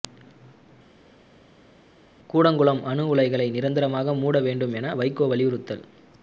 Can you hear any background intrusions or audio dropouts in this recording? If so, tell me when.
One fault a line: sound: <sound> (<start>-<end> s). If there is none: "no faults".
no faults